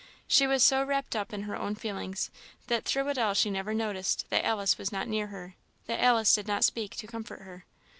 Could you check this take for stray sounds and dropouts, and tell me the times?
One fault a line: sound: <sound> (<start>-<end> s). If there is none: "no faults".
no faults